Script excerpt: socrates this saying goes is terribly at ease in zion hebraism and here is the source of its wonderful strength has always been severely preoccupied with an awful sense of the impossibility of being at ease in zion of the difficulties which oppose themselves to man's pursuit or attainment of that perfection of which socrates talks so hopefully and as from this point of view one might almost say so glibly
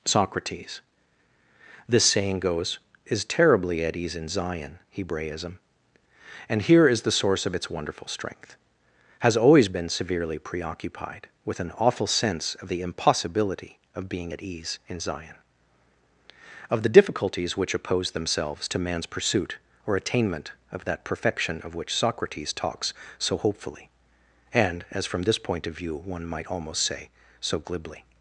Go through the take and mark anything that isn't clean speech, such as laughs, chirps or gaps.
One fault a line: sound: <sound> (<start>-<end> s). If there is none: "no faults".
no faults